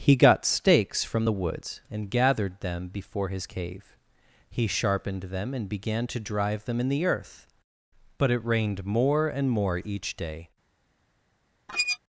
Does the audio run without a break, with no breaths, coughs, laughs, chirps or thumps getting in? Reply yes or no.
no